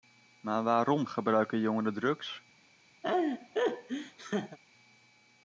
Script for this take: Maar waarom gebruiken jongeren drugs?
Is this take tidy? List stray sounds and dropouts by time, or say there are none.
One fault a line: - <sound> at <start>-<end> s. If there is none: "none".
- laugh at 3.0-4.6 s